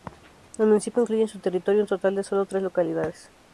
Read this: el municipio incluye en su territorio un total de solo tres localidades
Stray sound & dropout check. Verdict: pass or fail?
pass